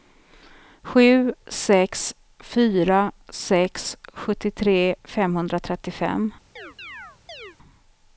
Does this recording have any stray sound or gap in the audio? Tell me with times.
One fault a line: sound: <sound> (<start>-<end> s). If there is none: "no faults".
sound: chirp (6.6-7.6 s)